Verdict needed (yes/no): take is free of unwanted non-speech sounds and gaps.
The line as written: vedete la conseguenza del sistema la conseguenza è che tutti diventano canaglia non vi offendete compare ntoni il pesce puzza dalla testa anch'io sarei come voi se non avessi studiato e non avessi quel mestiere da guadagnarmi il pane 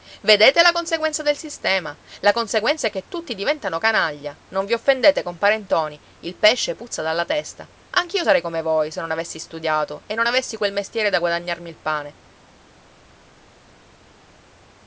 yes